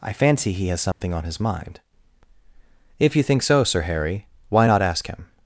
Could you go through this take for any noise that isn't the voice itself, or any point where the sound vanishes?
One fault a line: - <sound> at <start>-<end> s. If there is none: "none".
- dropout at 0.9-1.0 s